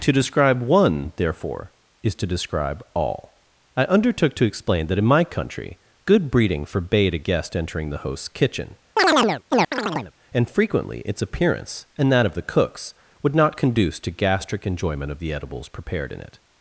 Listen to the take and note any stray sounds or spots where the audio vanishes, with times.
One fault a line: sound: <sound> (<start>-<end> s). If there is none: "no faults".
sound: chirp (9.0-10.1 s)